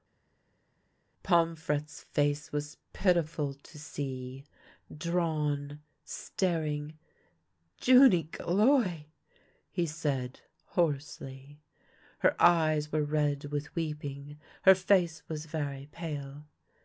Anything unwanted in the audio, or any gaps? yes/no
no